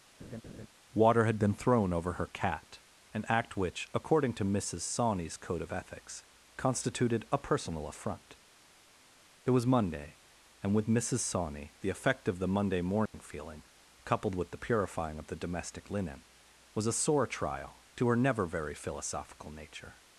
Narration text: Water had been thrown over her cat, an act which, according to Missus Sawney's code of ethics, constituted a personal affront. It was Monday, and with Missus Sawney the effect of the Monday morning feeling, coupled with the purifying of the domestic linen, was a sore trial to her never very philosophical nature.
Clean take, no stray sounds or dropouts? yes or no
no